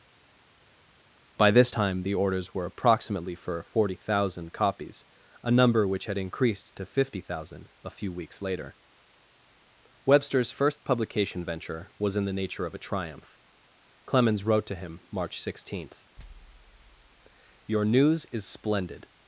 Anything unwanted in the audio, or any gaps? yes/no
no